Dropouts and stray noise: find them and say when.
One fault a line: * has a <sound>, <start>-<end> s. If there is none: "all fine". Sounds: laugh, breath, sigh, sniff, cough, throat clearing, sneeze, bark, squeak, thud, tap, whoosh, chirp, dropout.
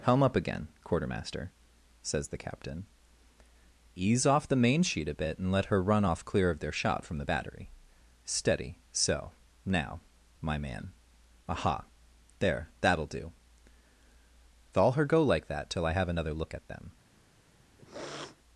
* has a sniff, 17.8-18.4 s